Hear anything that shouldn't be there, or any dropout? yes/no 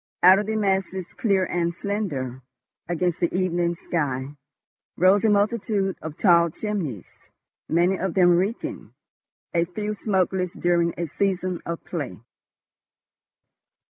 no